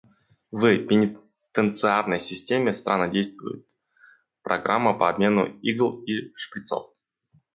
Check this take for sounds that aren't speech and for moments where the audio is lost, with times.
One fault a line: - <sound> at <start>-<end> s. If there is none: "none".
none